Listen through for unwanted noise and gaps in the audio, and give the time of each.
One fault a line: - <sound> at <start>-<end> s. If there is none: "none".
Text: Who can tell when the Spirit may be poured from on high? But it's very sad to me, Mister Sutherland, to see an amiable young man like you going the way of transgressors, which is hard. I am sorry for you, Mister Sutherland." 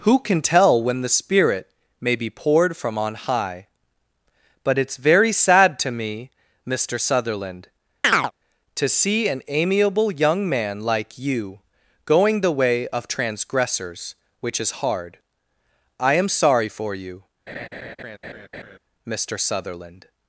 - chirp at 8.0-8.3 s
- laugh at 17.5-18.8 s